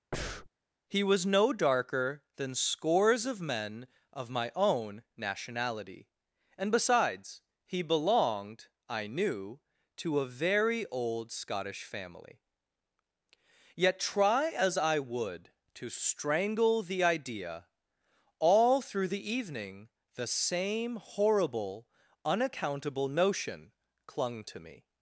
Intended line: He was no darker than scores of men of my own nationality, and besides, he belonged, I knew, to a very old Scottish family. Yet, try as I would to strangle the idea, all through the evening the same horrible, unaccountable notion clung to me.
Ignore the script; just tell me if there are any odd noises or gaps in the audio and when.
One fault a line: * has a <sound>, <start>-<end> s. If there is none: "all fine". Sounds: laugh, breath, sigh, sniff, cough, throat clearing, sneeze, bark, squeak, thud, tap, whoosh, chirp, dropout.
* has a breath, 0.1-0.5 s